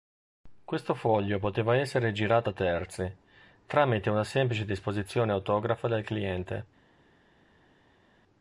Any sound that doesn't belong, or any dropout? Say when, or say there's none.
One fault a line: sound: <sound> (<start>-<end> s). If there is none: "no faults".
no faults